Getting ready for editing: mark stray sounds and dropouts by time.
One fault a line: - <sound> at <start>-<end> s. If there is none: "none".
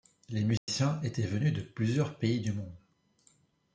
- dropout at 0.6-0.7 s